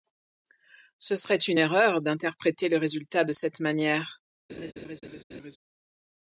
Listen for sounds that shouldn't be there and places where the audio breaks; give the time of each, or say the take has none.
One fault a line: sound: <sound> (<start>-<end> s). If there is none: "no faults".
sound: laugh (4.5-5.6 s)